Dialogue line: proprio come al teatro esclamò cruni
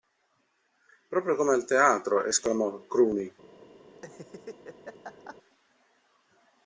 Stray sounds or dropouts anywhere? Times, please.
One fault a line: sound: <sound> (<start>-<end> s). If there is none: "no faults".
sound: laugh (3.9-5.4 s)